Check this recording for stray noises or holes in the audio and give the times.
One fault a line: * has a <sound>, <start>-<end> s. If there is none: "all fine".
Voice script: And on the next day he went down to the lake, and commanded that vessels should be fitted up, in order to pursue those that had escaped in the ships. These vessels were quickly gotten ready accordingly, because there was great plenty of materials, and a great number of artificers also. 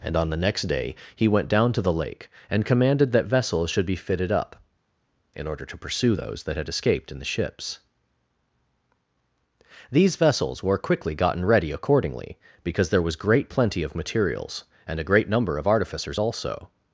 all fine